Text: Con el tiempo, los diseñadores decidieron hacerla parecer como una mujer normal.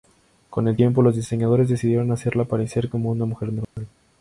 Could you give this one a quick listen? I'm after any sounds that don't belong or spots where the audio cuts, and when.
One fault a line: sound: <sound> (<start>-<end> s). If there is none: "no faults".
sound: dropout (3.6-3.8 s)